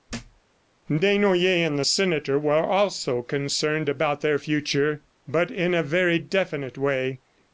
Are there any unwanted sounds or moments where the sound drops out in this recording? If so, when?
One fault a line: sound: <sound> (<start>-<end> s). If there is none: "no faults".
sound: thud (0.1-0.4 s)